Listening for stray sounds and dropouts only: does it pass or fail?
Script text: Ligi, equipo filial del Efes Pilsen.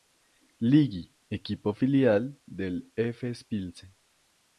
pass